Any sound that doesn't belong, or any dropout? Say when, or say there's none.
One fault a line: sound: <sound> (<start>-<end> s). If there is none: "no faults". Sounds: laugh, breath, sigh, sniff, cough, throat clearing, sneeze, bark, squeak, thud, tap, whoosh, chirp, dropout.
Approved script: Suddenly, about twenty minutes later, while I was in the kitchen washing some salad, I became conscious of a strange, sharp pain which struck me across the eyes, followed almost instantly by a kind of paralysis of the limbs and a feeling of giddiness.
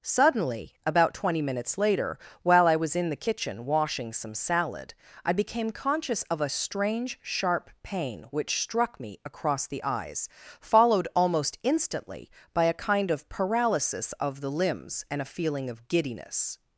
no faults